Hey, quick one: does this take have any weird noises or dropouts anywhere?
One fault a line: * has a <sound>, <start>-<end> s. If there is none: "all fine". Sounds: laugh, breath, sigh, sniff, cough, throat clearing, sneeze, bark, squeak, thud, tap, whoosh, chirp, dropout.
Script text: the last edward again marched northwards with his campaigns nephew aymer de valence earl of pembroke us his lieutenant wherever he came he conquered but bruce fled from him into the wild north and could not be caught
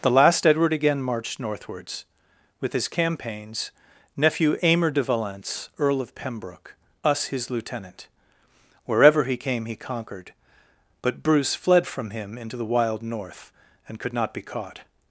all fine